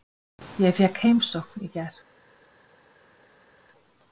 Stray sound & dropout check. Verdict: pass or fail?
pass